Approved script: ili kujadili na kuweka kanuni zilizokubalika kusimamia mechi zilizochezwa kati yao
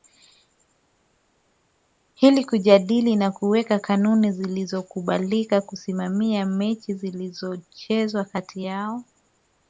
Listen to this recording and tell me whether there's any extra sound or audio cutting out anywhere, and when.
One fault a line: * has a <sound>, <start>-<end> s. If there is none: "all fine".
all fine